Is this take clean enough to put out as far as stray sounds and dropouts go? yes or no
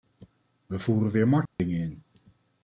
no